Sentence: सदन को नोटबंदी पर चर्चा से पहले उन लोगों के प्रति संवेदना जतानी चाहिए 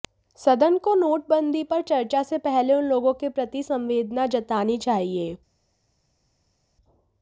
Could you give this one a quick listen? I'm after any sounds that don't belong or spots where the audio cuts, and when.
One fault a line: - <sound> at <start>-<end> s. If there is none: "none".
none